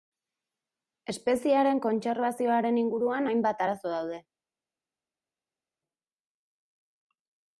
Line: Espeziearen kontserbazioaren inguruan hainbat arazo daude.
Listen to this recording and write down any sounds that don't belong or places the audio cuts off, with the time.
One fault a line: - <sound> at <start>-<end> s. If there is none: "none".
none